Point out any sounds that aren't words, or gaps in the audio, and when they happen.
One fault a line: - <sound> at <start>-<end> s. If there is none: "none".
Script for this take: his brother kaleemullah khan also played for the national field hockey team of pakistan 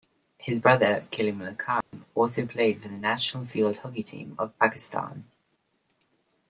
- dropout at 1.8-1.9 s